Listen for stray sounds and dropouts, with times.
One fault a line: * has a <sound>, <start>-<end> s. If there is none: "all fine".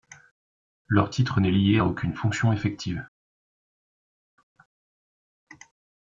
all fine